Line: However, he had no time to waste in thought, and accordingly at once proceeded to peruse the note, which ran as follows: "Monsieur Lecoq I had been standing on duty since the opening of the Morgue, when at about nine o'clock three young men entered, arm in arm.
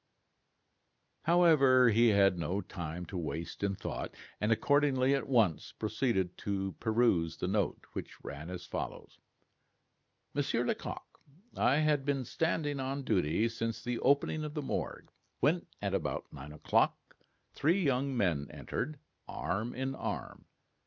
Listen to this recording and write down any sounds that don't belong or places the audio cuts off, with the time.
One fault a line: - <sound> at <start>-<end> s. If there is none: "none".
none